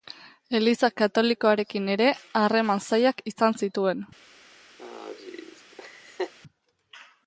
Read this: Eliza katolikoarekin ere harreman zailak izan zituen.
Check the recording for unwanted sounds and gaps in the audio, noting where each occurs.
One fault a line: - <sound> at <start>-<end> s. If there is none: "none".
- laugh at 4.8-6.3 s